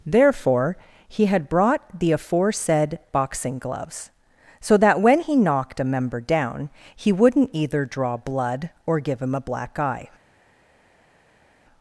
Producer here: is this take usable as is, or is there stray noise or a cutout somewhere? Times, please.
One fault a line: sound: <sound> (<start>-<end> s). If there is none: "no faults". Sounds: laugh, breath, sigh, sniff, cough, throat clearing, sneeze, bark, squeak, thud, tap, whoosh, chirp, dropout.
no faults